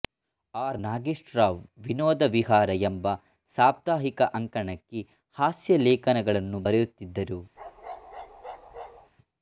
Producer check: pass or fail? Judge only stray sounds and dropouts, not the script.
fail